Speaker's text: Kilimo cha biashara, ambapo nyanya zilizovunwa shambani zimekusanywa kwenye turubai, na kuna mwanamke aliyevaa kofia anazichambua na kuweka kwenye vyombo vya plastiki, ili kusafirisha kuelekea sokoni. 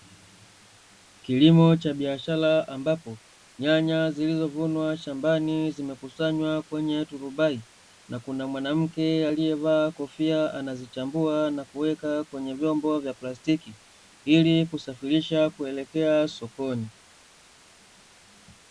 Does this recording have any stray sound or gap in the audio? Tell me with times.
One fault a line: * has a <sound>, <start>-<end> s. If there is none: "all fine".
all fine